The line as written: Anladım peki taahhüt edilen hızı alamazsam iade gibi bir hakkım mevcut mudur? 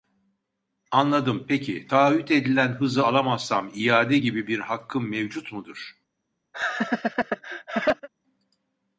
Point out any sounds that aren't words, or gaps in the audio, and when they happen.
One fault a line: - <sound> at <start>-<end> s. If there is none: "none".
- laugh at 6.5-8.1 s